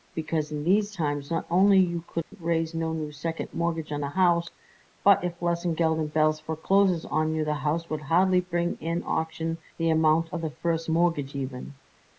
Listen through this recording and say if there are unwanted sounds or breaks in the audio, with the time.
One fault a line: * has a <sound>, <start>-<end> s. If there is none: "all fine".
* has a dropout, 2.2-2.3 s